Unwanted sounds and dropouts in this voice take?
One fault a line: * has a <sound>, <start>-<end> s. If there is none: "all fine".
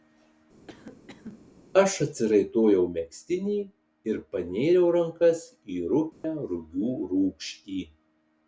* has a cough, 0.7-1.5 s
* has a dropout, 6.1-6.2 s